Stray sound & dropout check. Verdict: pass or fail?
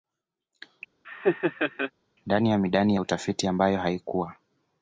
fail